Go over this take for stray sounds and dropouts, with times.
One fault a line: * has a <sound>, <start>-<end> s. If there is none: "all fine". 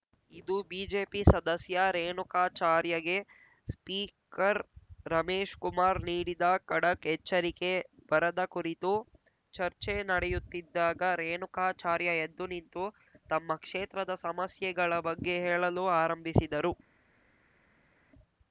all fine